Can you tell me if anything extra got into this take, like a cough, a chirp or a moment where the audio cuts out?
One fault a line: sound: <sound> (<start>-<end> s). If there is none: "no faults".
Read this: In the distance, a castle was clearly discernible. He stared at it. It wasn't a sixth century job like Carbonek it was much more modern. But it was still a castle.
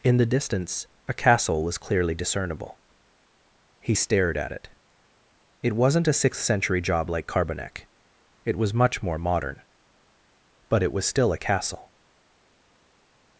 no faults